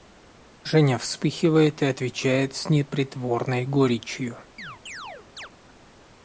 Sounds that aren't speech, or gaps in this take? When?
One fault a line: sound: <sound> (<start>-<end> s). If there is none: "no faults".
sound: chirp (4.6-5.5 s)